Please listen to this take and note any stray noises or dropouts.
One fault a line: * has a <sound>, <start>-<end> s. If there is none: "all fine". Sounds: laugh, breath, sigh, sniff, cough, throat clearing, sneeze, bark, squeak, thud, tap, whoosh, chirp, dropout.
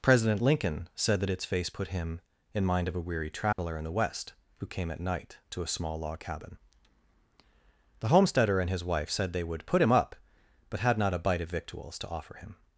* has a dropout, 3.5-3.6 s